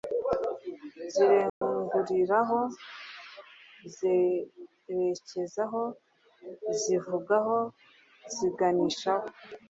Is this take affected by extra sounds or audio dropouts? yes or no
yes